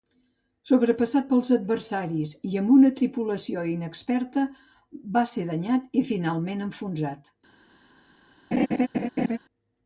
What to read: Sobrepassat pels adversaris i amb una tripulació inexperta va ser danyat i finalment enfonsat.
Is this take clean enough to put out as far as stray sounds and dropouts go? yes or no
no